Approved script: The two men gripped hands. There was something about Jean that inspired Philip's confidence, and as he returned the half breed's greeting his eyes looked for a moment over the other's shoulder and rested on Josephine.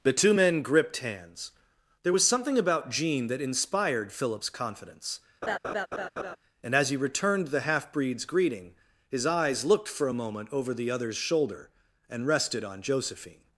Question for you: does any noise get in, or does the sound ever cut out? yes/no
yes